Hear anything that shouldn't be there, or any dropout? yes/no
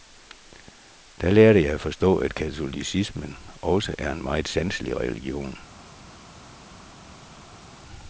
no